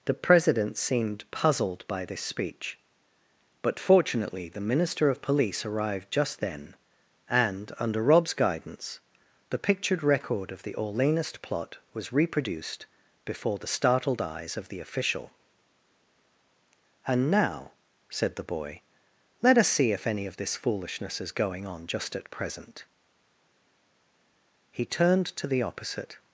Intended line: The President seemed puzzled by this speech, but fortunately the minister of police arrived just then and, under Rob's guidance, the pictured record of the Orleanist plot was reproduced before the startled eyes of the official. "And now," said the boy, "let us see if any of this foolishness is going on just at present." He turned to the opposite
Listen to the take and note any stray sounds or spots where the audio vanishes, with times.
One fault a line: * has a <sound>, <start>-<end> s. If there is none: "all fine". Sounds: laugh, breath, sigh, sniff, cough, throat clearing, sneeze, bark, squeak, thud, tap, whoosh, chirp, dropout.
all fine